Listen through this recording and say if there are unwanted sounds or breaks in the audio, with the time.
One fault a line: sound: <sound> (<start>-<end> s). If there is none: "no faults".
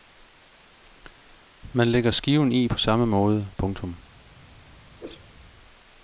sound: whoosh (5.0-5.3 s)